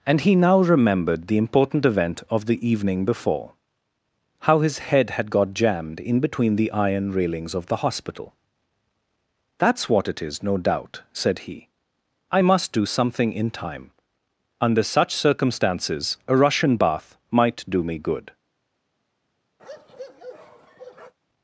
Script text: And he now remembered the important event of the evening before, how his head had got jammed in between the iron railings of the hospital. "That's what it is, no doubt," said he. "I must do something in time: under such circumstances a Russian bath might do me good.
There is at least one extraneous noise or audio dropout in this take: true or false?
true